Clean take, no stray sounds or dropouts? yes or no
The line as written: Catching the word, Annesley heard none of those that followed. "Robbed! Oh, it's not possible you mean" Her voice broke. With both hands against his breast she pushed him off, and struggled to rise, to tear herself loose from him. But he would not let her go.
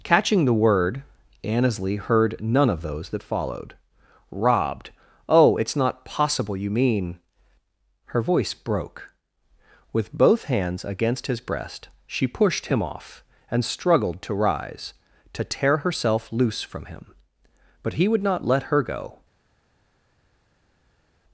yes